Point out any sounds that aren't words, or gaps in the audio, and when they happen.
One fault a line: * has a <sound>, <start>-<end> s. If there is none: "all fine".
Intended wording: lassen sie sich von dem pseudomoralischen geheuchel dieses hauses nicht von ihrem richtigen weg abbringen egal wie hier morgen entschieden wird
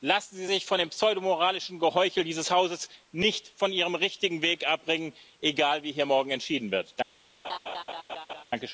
* has a laugh, 7.4-8.4 s